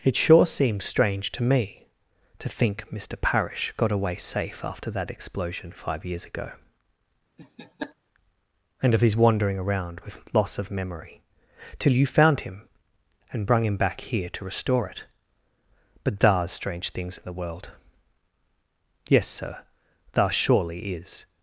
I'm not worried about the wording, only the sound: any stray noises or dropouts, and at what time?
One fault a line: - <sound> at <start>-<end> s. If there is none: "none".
- laugh at 7.4-7.9 s